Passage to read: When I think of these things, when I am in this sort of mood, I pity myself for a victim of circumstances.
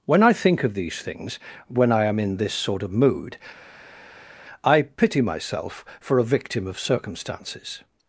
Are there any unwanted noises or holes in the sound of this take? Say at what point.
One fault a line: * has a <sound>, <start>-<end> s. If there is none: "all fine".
all fine